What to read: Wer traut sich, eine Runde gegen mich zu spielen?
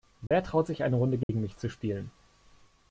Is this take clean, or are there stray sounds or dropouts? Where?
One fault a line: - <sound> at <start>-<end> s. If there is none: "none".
- dropout at 0.3-0.3 s
- dropout at 1.2-1.3 s